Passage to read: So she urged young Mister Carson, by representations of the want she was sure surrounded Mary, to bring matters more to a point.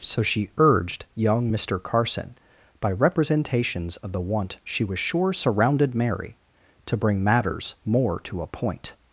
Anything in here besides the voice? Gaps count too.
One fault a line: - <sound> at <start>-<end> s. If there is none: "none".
none